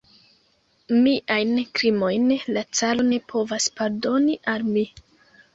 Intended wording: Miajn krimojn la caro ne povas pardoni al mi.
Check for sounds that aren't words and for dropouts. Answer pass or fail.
pass